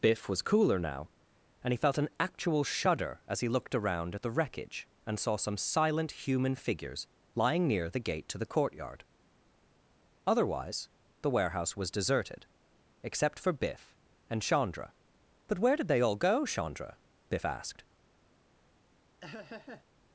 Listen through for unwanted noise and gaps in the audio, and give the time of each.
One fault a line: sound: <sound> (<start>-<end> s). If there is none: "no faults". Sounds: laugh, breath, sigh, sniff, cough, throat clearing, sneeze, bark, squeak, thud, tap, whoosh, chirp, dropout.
sound: laugh (19.2-19.9 s)